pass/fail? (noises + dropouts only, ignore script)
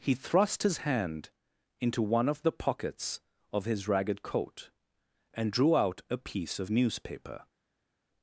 pass